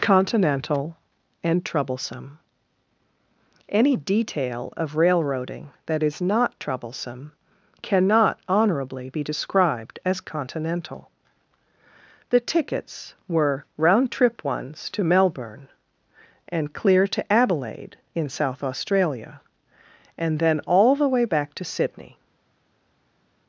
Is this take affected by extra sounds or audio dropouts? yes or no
no